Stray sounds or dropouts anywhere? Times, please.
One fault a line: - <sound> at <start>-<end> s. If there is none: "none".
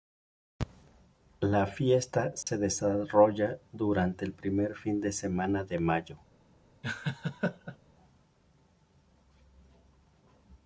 - dropout at 2.4-2.5 s
- laugh at 6.8-7.8 s